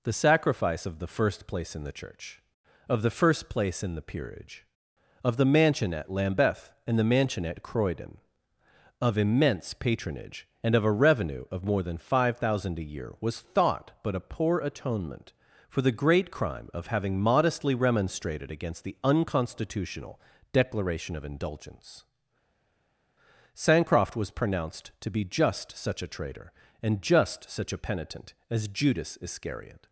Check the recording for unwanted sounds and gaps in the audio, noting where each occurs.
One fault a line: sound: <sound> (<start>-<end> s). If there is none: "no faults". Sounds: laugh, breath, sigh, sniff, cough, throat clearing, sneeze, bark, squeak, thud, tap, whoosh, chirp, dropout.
no faults